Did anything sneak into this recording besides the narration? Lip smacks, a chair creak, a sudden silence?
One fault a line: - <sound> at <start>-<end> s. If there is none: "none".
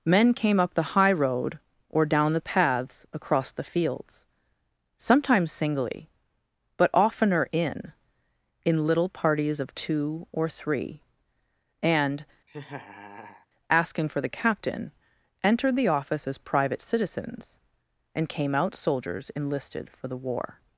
- laugh at 12.5-13.5 s